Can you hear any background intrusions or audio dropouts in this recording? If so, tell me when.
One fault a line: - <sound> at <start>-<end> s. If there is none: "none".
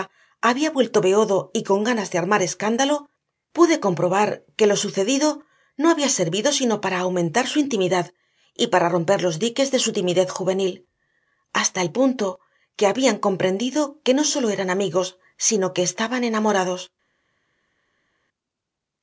none